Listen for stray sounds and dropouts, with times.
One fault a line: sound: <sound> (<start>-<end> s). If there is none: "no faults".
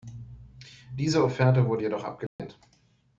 sound: dropout (2.3-2.4 s)